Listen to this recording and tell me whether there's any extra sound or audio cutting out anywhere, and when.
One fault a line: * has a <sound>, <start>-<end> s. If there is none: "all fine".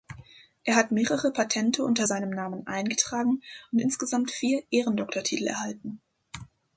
all fine